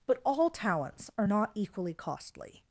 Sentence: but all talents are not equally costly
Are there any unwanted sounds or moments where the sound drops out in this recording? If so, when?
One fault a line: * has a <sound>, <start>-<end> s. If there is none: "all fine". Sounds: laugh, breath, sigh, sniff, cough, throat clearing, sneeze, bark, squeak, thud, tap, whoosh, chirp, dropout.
all fine